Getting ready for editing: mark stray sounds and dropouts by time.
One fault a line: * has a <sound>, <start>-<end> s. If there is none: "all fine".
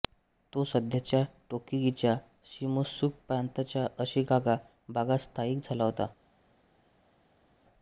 all fine